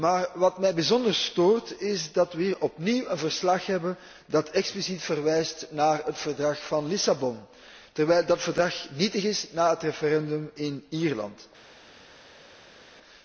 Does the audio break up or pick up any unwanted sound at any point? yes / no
no